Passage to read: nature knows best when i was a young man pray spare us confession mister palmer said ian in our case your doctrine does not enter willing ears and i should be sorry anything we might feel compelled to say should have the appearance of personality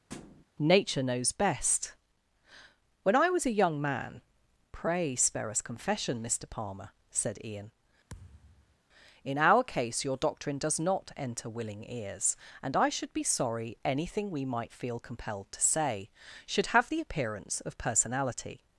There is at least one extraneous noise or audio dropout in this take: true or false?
true